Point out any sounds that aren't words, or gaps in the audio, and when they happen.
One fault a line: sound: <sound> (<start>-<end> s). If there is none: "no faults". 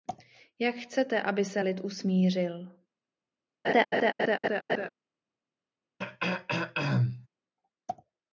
sound: laugh (3.6-4.9 s)
sound: throat clearing (6.0-7.3 s)